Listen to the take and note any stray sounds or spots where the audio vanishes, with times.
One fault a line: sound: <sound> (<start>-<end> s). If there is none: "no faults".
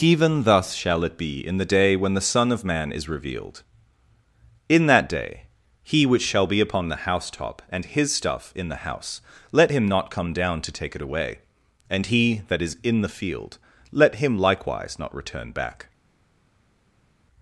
no faults